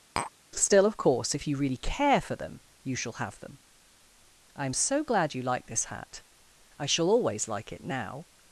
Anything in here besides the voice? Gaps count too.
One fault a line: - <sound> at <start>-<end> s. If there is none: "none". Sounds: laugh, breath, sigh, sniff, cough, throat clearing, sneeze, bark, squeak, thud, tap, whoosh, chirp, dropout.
- tap at 0.2-0.3 s